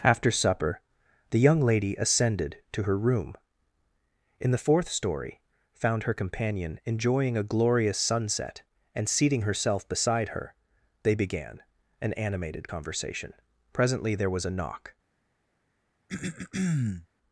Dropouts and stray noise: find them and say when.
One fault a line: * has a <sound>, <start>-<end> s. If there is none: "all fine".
* has a throat clearing, 16.1-17.1 s